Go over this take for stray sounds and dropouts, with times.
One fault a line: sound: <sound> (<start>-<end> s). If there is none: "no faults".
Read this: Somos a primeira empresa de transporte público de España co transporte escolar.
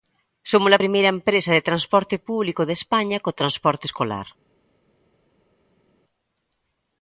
no faults